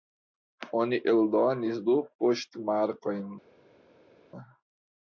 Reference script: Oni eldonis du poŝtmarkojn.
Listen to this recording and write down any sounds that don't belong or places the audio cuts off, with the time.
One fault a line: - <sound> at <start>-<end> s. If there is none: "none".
none